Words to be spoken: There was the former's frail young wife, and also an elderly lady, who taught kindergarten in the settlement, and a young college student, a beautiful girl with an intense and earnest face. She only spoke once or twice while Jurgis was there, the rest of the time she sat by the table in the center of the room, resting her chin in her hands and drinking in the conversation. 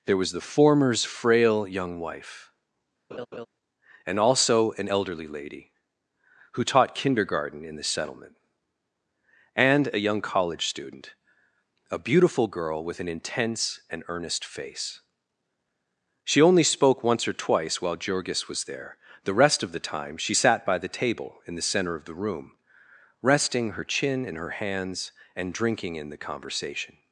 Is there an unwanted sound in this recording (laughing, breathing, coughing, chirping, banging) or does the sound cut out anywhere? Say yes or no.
yes